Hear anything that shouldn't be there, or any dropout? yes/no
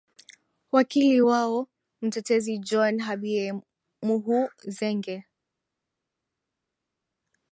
no